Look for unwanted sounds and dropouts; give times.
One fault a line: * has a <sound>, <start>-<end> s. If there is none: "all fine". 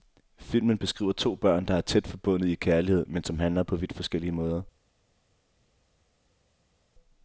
all fine